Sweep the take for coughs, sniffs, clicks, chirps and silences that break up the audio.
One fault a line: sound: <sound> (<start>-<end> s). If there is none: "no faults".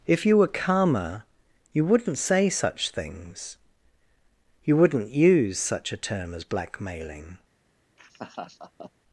sound: laugh (8.0-8.9 s)